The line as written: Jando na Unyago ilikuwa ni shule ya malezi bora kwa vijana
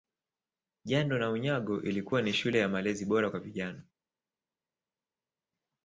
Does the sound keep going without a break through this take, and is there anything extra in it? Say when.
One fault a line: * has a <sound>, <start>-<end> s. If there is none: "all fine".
all fine